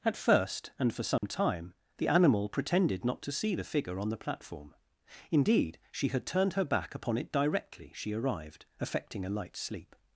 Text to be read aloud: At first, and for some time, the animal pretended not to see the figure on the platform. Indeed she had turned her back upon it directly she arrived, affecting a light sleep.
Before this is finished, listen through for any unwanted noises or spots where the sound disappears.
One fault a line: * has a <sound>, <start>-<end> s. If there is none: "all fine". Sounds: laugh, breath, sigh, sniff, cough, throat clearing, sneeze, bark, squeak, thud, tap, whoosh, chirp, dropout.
* has a dropout, 1.2-1.2 s